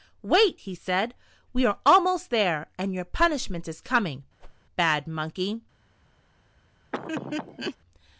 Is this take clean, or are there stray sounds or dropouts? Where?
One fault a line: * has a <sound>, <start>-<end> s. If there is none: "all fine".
* has a whoosh, 4.4-4.6 s
* has a laugh, 6.9-7.8 s